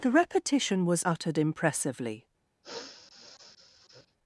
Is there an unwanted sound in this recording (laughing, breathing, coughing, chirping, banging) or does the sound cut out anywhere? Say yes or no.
yes